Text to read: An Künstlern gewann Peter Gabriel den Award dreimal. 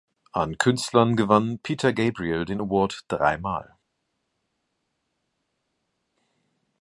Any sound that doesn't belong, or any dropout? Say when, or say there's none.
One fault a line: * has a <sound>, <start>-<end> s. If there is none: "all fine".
all fine